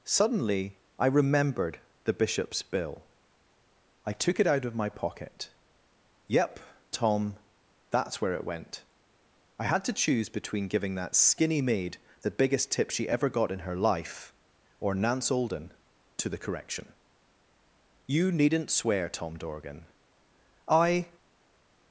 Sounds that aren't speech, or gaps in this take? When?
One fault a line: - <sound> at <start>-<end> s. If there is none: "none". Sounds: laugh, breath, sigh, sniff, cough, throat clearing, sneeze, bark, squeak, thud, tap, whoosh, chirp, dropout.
none